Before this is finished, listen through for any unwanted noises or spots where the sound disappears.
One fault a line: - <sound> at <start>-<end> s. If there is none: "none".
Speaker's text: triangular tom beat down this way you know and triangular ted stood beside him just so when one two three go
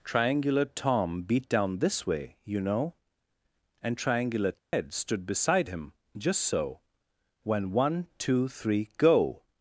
- dropout at 4.6-4.7 s